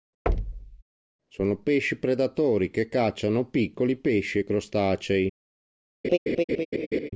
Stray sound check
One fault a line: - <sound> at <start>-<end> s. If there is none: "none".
- thud at 0.3-0.8 s
- laugh at 6.0-7.1 s